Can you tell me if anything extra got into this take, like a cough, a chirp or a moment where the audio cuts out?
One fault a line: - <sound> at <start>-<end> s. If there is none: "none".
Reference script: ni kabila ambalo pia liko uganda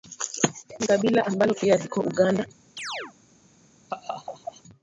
- chirp at 2.8-3.1 s
- laugh at 3.9-4.6 s